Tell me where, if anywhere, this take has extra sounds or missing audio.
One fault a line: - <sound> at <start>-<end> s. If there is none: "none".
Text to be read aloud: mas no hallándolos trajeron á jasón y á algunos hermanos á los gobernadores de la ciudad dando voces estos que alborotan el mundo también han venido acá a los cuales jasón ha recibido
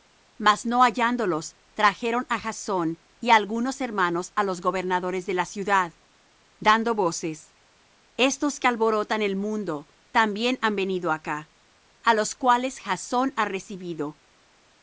none